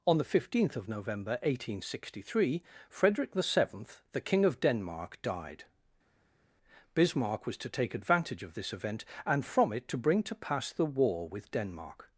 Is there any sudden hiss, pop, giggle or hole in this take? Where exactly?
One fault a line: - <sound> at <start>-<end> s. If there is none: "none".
none